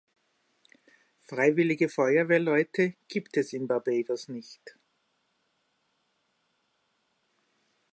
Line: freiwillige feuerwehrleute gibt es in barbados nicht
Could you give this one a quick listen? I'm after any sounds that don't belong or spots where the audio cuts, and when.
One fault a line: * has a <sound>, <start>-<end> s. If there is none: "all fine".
all fine